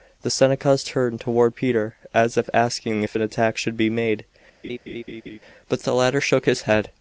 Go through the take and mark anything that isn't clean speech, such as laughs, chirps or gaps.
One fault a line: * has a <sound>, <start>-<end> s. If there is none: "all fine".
* has a laugh, 4.6-5.4 s